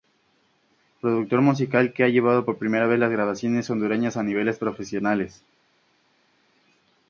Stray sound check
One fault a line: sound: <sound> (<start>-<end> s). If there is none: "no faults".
no faults